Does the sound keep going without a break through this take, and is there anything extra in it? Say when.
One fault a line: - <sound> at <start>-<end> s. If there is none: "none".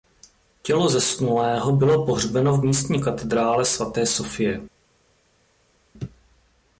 none